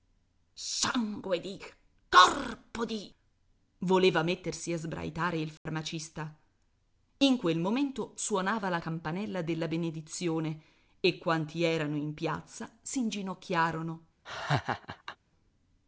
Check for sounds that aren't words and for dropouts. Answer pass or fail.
fail